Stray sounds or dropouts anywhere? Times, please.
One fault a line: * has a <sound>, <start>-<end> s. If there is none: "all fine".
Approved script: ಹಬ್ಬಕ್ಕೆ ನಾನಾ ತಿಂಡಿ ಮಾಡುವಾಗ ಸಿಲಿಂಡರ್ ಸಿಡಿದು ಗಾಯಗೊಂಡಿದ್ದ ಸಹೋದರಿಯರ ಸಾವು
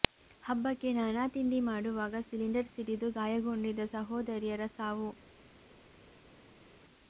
all fine